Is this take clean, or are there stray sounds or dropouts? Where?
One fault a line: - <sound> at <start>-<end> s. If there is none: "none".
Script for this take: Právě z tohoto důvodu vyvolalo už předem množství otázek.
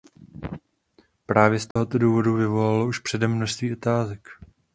- dropout at 1.7-1.8 s